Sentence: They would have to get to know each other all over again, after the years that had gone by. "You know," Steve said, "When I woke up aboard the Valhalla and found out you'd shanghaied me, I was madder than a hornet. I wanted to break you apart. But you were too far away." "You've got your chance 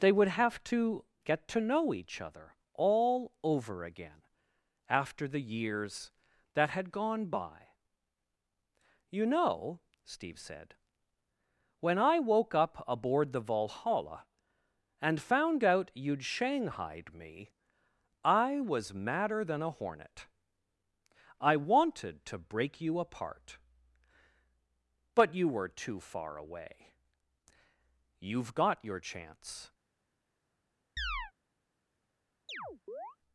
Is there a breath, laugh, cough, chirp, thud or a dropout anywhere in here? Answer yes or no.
yes